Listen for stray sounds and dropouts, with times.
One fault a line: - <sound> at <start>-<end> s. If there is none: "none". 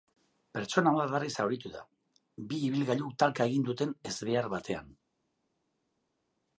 none